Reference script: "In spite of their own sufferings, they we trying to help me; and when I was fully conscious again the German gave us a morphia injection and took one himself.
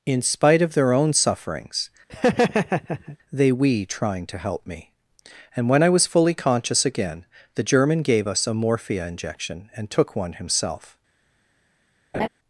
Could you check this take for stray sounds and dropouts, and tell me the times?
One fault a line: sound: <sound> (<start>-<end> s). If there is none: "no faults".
sound: laugh (2.1-3.2 s)
sound: laugh (12.1-12.3 s)